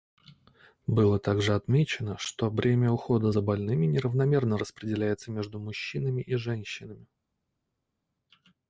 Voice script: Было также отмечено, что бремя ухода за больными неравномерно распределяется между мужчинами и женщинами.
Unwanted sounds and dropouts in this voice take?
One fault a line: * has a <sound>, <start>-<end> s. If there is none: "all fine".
all fine